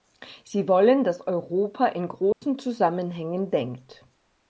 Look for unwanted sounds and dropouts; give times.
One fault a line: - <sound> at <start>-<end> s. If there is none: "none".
- dropout at 2.3-2.4 s